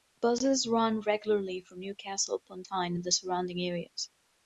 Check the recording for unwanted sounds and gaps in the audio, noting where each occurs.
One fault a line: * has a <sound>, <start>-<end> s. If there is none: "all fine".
all fine